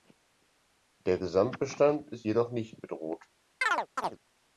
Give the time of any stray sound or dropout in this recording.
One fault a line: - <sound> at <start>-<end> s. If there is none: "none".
- chirp at 3.6-4.2 s